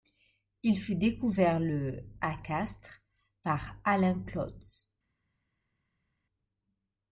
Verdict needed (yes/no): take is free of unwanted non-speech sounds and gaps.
yes